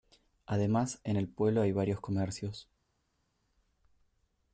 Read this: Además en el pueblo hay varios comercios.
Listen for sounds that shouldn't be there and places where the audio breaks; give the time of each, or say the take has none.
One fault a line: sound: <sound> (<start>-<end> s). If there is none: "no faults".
no faults